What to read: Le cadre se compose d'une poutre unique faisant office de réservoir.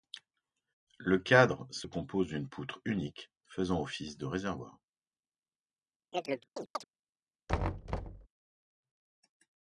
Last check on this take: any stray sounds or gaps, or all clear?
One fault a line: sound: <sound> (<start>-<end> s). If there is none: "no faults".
sound: chirp (6.1-6.8 s)
sound: thud (7.5-8.3 s)